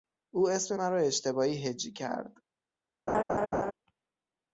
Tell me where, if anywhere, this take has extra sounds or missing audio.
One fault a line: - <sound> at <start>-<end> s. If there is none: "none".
- laugh at 3.1-3.7 s